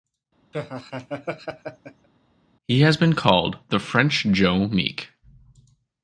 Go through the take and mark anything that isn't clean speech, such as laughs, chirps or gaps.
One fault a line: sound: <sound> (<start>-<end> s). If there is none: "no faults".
sound: laugh (0.5-2.1 s)